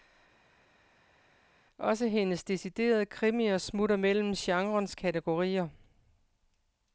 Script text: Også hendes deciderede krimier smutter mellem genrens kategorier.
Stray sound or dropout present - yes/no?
no